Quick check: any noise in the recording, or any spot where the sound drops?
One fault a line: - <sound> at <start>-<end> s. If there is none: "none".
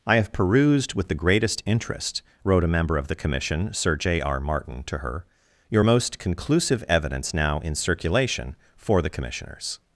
none